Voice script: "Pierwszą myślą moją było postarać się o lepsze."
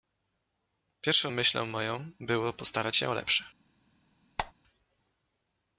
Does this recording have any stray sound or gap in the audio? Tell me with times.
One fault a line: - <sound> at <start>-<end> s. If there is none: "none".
- squeak at 4.4-4.5 s